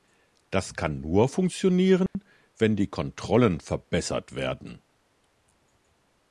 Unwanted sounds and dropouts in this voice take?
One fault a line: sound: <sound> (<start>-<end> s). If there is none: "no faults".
sound: dropout (2.1-2.2 s)